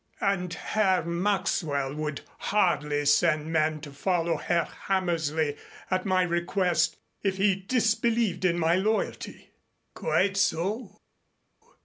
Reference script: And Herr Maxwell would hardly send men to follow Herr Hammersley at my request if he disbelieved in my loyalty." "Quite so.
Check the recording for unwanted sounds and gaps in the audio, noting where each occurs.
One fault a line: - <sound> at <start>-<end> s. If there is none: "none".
none